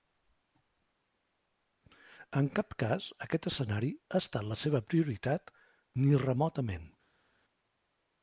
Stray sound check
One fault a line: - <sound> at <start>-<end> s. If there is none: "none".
none